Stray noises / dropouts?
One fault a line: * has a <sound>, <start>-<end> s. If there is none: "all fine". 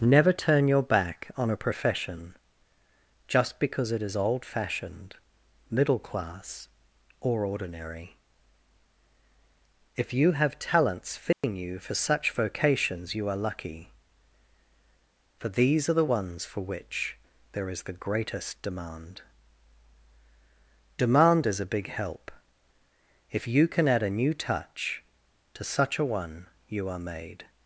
* has a dropout, 11.3-11.4 s